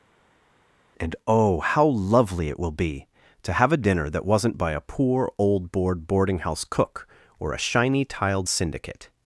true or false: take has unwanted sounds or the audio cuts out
false